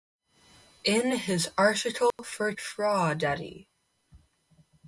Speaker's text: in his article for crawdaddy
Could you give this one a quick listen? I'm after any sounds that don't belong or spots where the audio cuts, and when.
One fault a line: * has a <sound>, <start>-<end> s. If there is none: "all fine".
* has a dropout, 2.1-2.2 s